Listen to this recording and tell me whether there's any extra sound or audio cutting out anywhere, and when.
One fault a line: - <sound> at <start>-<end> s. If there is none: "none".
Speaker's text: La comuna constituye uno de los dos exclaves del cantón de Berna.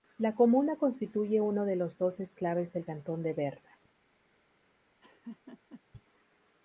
- laugh at 5.0-5.8 s